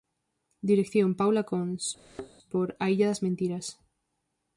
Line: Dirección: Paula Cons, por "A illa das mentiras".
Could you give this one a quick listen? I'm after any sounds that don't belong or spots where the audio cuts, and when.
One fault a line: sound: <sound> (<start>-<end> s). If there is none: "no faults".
sound: thud (2.0-2.3 s)